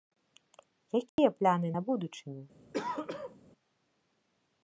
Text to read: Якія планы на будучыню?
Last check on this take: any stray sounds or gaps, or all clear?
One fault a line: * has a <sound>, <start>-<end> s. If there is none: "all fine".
* has a dropout, 1.1-1.2 s
* has a throat clearing, 2.7-3.5 s